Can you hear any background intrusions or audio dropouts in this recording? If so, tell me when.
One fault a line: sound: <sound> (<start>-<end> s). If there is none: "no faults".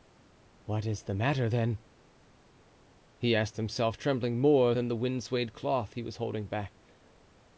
no faults